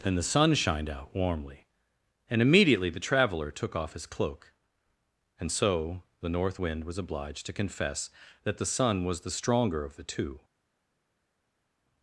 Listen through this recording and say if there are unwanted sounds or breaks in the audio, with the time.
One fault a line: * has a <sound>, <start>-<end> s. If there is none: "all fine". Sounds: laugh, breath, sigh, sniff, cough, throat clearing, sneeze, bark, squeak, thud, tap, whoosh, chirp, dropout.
all fine